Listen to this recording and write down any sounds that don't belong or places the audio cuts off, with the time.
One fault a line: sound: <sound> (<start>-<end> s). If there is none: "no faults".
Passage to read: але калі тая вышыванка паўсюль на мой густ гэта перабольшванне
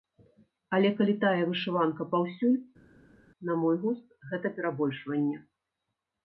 no faults